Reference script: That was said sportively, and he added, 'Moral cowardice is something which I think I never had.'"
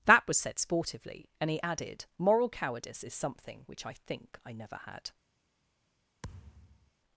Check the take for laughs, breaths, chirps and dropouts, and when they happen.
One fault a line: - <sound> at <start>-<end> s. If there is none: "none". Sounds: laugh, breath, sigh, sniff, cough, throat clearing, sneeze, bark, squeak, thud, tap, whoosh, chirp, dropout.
- thud at 6.2-6.9 s